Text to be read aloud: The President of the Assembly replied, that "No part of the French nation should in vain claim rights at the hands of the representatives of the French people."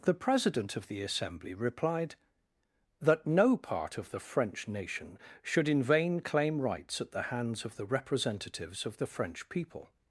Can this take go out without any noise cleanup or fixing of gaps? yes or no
yes